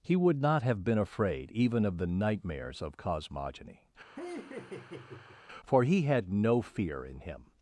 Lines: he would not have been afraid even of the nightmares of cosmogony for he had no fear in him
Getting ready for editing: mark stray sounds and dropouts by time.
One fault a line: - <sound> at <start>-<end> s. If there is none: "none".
- laugh at 4.2-5.4 s